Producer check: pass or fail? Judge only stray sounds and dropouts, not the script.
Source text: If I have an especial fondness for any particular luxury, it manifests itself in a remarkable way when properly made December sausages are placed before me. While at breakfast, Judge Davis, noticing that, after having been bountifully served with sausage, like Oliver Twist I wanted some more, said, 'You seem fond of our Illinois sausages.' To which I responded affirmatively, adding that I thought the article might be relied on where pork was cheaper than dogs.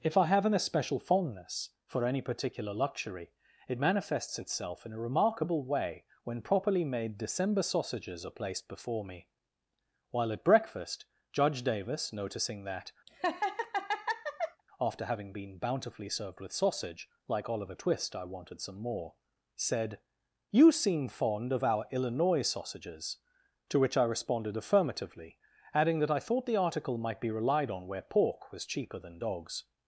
fail